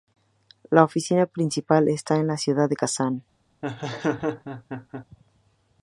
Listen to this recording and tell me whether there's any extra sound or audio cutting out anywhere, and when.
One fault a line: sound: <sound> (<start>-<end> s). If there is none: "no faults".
sound: laugh (3.6-5.1 s)